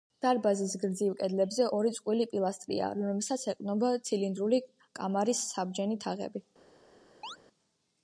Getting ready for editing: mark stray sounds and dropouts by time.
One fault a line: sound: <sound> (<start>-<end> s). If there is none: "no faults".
sound: chirp (7.2-7.4 s)